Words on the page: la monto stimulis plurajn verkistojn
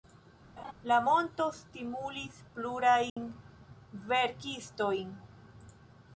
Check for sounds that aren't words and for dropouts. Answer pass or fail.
fail